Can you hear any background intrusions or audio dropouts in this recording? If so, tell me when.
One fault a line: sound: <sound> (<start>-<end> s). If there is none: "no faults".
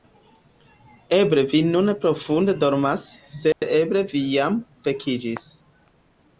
sound: dropout (3.5-3.6 s)